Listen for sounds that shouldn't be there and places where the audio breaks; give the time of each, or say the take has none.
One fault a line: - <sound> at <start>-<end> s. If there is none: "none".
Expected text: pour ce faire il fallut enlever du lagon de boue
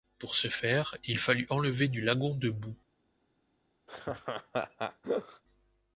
- laugh at 3.9-5.4 s